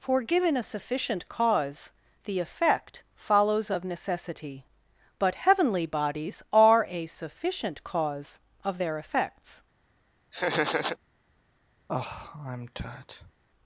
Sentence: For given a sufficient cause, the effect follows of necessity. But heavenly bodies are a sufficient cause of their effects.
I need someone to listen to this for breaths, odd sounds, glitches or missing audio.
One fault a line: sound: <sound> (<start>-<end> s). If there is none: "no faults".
sound: laugh (10.3-11.0 s)
sound: sigh (11.9-13.3 s)